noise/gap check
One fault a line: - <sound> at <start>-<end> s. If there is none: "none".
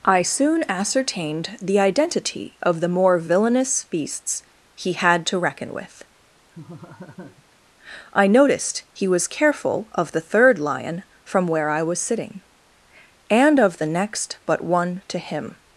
- laugh at 6.5-7.5 s